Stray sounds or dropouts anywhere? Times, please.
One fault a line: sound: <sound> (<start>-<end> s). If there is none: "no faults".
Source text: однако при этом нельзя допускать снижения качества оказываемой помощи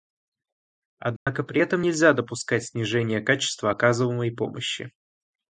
sound: dropout (1.2-1.3 s)